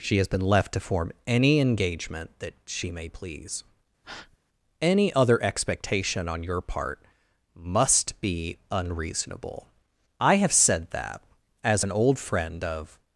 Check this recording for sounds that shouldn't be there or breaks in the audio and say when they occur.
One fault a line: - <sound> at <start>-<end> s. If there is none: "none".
- breath at 4.0-4.4 s